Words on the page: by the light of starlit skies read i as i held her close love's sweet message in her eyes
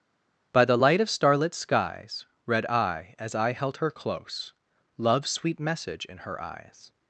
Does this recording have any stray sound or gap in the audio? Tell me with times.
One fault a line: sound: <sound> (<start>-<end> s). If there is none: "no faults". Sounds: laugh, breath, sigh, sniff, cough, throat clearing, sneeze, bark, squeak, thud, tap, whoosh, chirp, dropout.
no faults